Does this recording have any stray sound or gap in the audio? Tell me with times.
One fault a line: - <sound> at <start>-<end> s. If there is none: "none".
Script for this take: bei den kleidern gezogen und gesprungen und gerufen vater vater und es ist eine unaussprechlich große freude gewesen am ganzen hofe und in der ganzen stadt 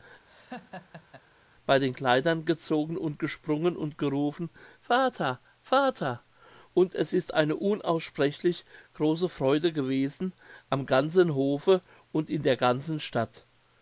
- laugh at 0.3-1.2 s